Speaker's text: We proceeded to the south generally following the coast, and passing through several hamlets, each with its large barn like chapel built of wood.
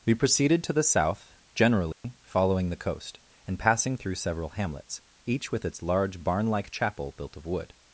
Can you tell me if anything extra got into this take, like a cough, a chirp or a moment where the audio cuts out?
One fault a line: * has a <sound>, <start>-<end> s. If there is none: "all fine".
* has a dropout, 1.9-2.0 s